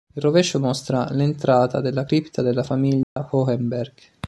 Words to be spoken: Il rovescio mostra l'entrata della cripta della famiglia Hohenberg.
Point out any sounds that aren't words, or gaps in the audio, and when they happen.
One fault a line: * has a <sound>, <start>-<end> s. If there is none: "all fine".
* has a dropout, 3.0-3.2 s